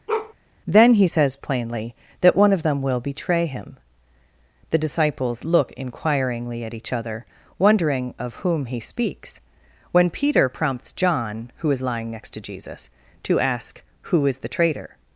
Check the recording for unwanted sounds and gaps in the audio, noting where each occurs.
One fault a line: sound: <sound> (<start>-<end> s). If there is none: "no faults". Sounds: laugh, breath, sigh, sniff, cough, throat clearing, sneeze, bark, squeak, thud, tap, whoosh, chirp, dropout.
sound: bark (0.1-0.3 s)